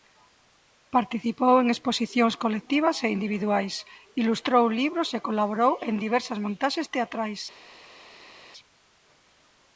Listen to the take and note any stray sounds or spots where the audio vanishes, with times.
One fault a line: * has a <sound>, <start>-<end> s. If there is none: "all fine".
all fine